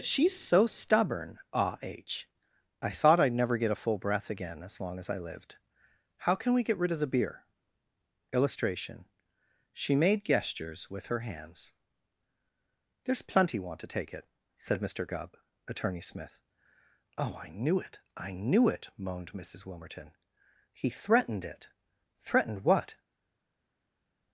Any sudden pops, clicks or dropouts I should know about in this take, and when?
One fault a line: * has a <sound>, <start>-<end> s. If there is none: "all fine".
all fine